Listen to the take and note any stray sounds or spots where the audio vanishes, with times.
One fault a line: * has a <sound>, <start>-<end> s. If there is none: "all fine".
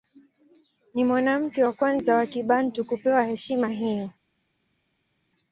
all fine